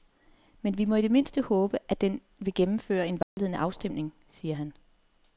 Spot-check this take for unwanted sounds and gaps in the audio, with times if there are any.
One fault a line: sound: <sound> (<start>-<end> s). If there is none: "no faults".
sound: dropout (3.2-3.4 s)